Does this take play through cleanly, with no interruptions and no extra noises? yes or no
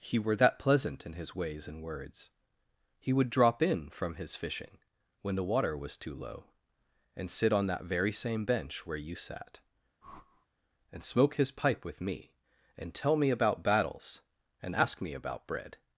no